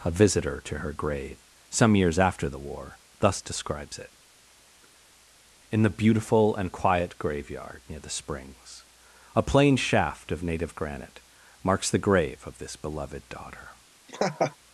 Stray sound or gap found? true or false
true